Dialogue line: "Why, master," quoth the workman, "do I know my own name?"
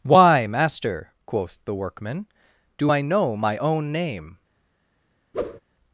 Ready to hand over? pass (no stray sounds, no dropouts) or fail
fail